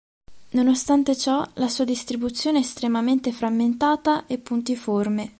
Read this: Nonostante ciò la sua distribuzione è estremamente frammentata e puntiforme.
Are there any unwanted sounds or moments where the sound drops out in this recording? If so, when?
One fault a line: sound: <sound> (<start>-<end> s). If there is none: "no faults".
no faults